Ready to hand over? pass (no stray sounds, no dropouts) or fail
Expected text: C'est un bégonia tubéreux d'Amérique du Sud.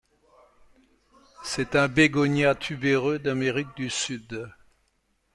pass